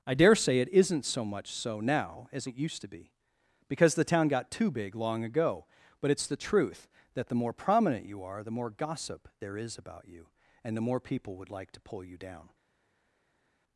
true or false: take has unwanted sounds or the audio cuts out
false